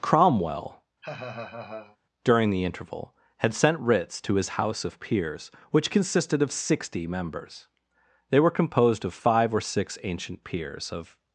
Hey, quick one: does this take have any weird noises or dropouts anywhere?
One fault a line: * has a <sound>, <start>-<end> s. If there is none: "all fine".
* has a laugh, 1.0-2.0 s